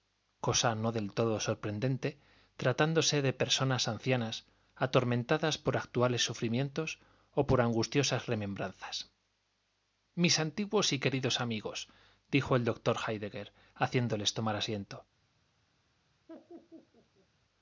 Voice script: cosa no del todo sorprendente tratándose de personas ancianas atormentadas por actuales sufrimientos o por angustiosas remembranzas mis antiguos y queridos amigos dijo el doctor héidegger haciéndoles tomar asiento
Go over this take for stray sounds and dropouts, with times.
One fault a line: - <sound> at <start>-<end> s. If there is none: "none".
- laugh at 16.3-17.3 s